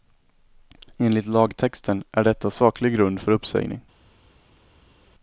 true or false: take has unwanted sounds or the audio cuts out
false